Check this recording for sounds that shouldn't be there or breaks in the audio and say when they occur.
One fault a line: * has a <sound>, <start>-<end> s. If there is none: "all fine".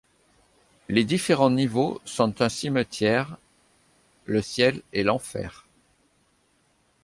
all fine